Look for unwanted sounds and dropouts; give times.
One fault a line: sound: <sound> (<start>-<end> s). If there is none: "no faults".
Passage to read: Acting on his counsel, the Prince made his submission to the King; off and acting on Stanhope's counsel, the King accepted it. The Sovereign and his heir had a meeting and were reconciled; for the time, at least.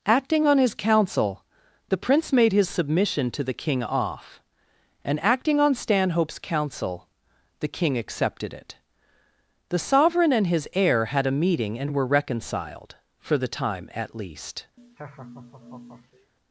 sound: laugh (14.8-16.3 s)